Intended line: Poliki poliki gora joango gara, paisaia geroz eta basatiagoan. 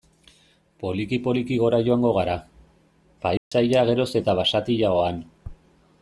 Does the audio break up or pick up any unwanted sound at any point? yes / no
yes